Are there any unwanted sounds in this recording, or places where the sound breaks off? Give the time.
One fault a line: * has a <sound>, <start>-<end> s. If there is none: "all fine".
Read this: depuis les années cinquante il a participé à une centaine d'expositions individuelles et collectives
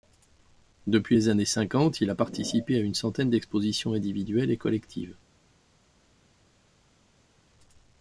all fine